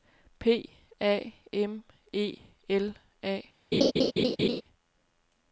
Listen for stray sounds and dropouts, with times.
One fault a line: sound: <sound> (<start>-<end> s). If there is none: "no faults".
sound: laugh (3.7-4.6 s)